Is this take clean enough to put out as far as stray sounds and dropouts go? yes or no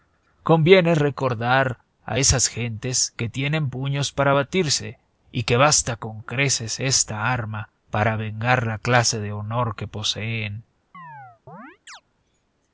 no